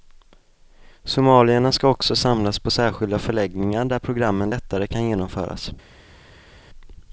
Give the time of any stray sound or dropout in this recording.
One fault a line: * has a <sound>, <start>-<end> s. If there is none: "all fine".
all fine